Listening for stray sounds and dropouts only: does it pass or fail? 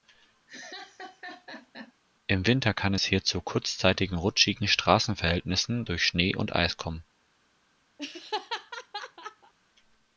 fail